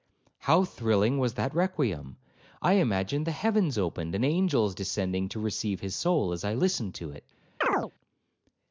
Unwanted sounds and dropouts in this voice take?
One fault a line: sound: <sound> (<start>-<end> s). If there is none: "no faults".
sound: chirp (7.6-7.9 s)